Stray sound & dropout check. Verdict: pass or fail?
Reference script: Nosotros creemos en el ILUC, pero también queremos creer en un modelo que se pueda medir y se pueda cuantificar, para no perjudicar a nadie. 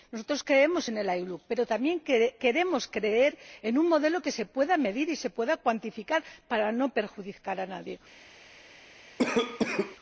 fail